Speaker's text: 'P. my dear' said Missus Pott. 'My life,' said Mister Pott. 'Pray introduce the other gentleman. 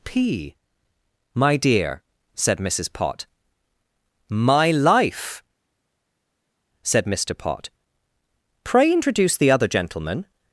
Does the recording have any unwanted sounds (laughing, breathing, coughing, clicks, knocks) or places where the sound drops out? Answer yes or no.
no